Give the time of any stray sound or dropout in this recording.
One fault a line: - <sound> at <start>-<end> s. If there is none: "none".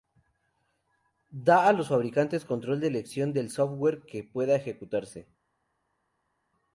none